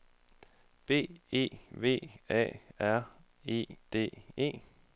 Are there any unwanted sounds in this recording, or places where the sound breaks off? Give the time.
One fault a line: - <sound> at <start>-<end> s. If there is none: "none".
none